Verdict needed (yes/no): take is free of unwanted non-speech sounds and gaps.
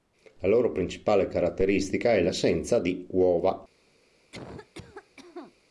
no